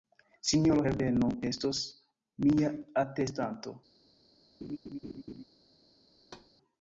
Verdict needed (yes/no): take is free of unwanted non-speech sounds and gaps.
no